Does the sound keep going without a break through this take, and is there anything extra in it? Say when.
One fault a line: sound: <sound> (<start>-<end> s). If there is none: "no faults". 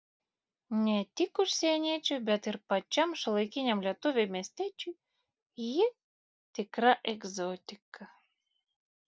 no faults